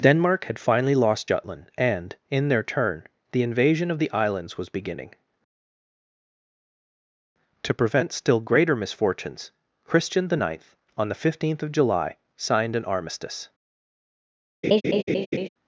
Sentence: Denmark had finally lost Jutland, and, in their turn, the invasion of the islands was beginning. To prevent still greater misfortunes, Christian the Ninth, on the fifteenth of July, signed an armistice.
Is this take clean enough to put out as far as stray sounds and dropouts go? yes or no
no